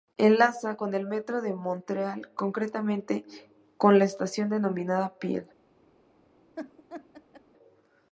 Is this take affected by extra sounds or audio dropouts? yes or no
yes